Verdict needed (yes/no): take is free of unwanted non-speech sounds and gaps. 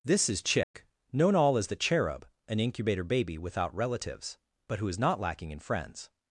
no